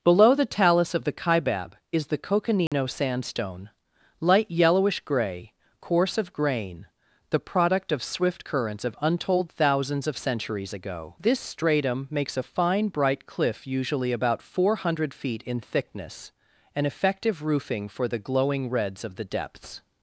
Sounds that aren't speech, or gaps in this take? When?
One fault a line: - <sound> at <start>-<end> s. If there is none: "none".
- dropout at 2.7-2.7 s